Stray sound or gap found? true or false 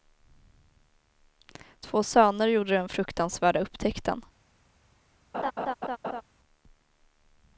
true